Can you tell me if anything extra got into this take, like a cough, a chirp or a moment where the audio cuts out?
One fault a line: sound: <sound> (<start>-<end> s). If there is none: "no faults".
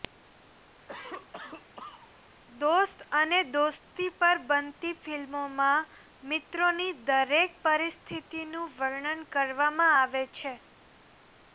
sound: cough (0.9-2.2 s)